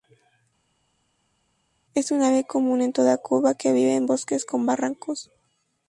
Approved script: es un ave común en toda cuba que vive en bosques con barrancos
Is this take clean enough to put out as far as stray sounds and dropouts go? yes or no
yes